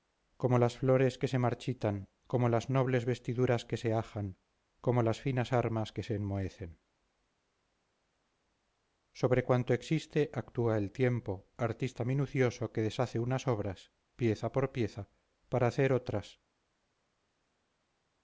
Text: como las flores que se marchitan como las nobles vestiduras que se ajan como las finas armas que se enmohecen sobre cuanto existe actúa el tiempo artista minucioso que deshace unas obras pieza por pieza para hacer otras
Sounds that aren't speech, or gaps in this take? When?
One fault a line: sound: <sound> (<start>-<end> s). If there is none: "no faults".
no faults